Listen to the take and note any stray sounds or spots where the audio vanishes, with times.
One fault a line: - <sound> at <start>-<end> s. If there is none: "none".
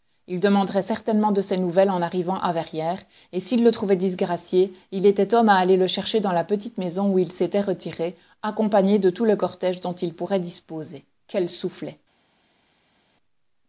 none